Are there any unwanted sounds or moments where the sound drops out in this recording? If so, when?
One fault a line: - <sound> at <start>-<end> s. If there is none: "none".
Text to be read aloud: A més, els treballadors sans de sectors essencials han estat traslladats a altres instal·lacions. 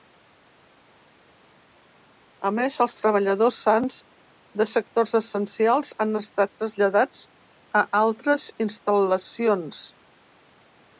none